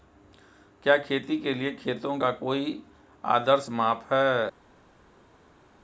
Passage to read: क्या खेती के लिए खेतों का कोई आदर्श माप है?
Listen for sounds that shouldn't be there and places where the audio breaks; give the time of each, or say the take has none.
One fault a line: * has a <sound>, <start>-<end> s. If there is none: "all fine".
all fine